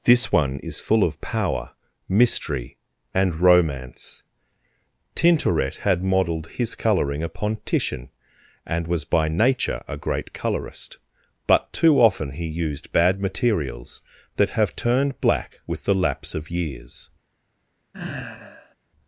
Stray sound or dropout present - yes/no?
yes